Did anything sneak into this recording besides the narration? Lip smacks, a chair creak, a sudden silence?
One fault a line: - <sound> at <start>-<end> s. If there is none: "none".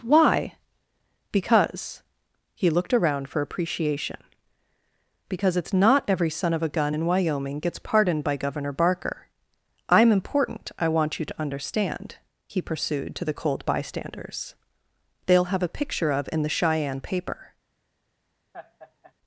- laugh at 18.5-19.1 s